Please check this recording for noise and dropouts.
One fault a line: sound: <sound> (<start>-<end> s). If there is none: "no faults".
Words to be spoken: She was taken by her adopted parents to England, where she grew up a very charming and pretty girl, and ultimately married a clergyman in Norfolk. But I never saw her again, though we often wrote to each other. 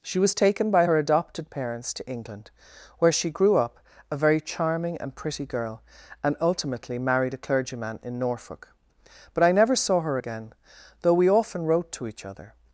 no faults